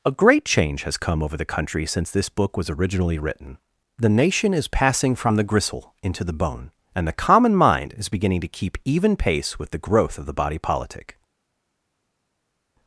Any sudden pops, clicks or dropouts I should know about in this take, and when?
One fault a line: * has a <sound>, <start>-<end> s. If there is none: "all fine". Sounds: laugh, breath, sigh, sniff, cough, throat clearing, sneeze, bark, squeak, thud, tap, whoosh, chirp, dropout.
all fine